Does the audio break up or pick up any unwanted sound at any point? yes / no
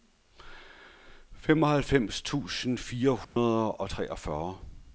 yes